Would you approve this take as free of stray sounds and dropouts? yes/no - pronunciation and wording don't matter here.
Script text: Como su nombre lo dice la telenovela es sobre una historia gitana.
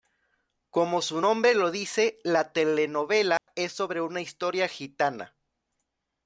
no